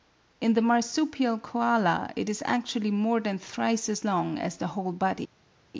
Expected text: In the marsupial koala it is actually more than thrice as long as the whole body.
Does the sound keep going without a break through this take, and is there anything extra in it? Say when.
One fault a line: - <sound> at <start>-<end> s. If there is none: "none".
none